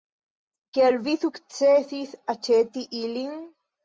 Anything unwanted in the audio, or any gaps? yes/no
no